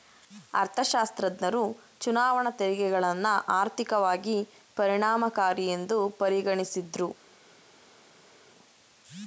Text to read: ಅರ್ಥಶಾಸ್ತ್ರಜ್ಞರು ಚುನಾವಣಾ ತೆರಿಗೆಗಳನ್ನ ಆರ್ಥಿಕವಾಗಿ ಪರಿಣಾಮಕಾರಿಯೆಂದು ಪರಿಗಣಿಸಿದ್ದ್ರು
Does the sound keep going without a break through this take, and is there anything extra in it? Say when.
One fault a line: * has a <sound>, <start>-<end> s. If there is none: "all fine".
all fine